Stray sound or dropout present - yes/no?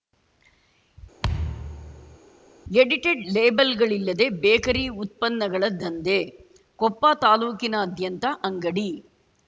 yes